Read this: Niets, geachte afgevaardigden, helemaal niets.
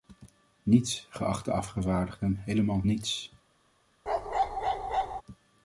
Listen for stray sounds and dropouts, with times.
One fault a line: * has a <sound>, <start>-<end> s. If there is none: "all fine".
* has a bark, 4.1-5.2 s